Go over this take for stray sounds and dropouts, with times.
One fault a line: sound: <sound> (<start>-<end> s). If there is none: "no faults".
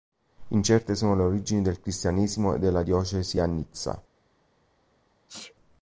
sound: sneeze (5.3-5.5 s)